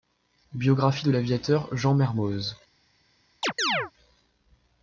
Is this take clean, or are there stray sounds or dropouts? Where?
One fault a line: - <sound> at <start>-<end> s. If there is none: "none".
- chirp at 3.4-3.9 s